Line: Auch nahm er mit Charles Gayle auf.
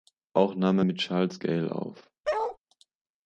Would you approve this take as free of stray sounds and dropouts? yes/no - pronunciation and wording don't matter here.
no